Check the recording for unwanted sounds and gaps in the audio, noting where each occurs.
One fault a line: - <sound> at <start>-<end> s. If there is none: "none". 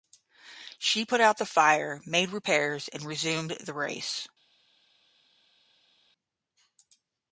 none